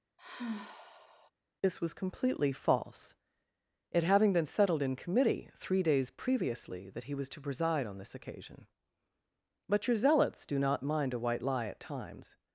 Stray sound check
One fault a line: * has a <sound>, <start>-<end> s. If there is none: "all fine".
* has a sigh, 0.2-1.3 s